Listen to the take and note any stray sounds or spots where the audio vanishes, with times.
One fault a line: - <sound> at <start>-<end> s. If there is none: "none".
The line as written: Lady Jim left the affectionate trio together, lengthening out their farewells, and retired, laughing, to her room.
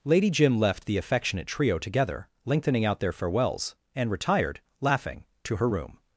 none